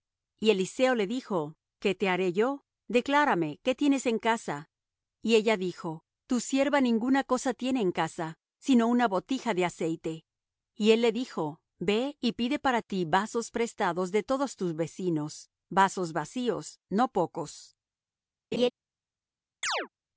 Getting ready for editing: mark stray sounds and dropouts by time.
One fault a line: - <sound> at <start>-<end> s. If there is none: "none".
- laugh at 18.5-18.7 s
- chirp at 19.6-19.9 s